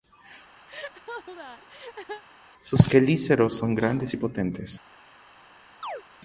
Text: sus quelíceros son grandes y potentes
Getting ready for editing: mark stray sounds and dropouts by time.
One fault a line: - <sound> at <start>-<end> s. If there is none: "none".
- laugh at 0.7-2.2 s
- chirp at 5.8-6.0 s